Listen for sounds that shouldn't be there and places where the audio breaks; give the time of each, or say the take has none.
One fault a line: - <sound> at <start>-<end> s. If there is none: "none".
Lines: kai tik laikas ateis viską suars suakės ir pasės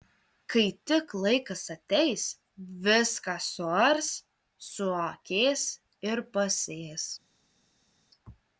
none